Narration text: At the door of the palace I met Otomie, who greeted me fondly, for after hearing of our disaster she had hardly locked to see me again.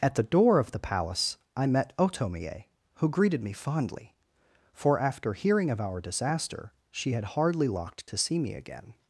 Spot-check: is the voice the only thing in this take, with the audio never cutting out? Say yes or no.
yes